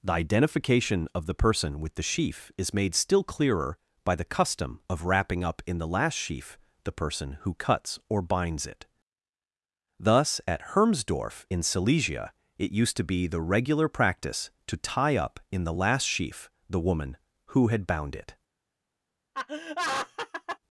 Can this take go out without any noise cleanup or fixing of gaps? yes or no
no